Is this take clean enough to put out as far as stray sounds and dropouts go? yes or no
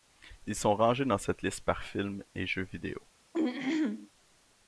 no